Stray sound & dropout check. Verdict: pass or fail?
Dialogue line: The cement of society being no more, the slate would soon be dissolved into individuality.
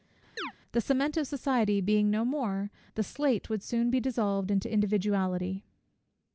fail